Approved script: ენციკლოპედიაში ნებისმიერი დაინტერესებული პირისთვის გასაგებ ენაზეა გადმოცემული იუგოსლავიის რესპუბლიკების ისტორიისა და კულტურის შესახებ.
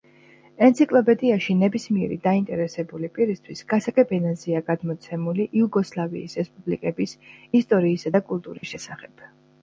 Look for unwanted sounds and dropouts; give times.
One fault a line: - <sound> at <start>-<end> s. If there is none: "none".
- dropout at 8.6-8.6 s